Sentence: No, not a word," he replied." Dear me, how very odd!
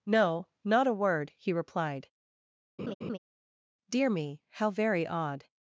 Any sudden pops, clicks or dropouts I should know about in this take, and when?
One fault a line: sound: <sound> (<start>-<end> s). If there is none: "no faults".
sound: laugh (2.8-3.2 s)